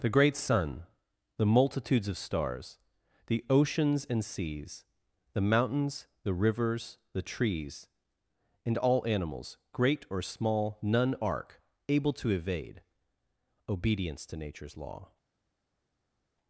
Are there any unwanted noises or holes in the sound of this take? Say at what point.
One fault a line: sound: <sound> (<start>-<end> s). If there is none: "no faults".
no faults